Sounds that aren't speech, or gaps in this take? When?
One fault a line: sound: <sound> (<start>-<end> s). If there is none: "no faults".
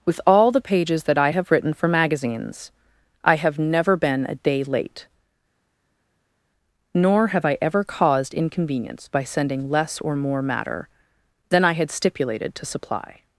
no faults